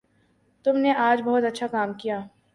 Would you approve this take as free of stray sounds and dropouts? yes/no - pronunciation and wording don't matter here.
yes